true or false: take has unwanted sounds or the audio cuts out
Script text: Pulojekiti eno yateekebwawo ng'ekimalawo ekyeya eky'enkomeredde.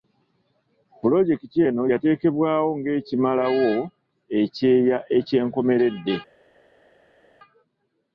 false